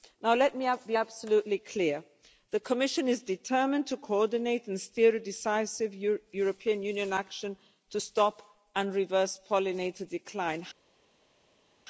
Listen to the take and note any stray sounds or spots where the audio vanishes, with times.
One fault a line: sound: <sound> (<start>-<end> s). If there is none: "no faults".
no faults